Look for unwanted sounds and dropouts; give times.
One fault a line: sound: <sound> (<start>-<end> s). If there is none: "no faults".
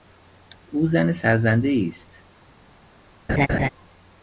sound: laugh (3.3-3.7 s)